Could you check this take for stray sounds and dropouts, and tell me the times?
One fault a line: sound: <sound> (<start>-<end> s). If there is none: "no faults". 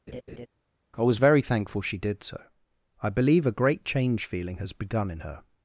sound: laugh (0.1-0.5 s)